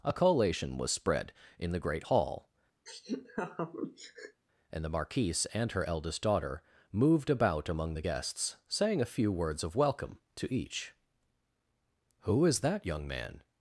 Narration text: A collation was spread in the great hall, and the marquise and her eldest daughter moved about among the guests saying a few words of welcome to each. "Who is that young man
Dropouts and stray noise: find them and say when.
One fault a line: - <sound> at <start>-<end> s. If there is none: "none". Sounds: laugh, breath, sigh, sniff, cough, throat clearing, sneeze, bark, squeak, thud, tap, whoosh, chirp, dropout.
- laugh at 2.9-4.4 s